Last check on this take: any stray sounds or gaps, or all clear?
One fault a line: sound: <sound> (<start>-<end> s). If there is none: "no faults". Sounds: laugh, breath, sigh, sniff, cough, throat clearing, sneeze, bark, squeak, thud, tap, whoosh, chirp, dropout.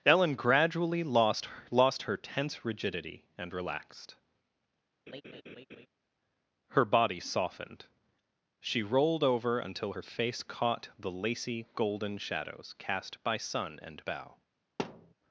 sound: laugh (5.1-5.9 s)
sound: thud (14.8-15.1 s)